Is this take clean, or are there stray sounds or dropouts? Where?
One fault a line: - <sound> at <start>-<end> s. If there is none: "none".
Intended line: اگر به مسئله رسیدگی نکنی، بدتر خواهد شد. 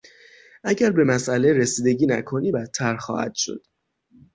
none